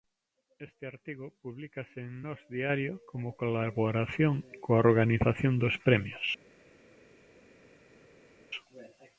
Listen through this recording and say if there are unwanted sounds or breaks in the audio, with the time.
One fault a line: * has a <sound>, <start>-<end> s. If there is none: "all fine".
all fine